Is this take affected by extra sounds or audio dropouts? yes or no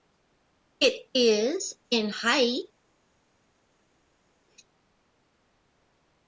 no